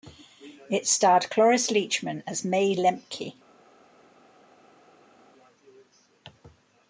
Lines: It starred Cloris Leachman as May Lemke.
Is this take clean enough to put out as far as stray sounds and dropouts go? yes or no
yes